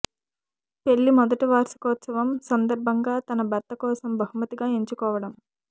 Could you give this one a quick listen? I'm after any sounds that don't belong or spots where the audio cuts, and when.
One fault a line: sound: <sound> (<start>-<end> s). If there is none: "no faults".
no faults